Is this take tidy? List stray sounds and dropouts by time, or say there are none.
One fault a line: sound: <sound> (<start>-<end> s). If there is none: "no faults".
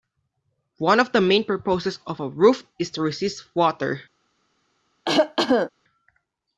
sound: cough (5.1-5.7 s)